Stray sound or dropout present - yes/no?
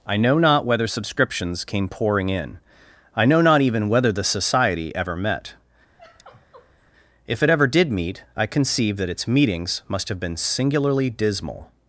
yes